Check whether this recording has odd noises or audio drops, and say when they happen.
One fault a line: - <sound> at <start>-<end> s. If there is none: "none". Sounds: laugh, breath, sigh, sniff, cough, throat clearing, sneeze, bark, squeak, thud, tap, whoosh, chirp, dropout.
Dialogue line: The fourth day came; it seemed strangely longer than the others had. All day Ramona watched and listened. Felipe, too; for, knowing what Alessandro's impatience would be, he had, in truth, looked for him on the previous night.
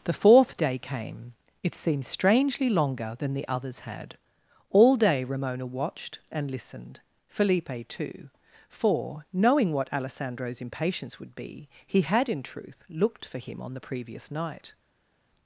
none